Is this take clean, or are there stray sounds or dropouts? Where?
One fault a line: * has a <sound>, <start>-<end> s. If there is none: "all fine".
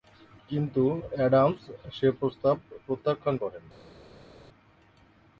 all fine